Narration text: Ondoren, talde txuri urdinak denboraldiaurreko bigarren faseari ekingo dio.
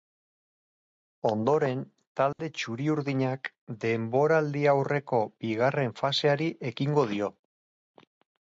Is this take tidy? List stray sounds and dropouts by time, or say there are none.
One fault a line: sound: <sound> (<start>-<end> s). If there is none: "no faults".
sound: dropout (2.3-2.4 s)